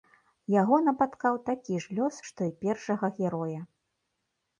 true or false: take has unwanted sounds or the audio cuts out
false